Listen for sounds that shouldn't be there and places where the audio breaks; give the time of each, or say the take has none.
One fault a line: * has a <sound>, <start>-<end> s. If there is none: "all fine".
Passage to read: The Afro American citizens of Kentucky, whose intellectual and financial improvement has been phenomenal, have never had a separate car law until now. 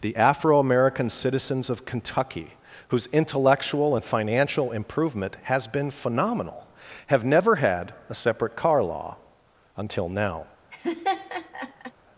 * has a laugh, 10.7-11.9 s